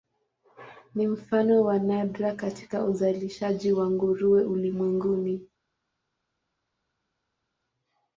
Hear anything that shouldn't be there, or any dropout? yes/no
no